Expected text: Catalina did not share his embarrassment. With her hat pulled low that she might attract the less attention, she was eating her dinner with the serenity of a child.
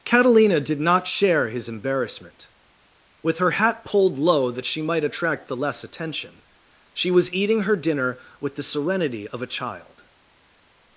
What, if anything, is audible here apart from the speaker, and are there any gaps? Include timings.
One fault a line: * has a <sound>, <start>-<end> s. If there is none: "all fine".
all fine